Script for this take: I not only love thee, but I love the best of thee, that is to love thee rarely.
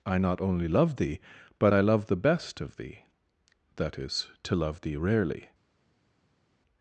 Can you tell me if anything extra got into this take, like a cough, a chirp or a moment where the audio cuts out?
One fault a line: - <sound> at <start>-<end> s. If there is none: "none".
none